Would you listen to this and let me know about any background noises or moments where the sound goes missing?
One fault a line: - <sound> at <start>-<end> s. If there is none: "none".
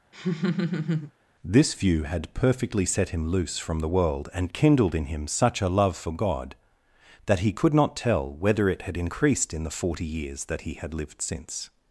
- laugh at 0.1-1.1 s